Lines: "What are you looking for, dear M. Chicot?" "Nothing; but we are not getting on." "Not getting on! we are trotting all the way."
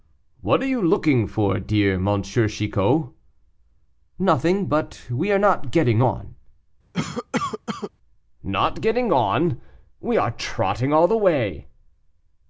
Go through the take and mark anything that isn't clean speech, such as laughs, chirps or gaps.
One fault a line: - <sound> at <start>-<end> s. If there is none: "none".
- cough at 6.9-7.9 s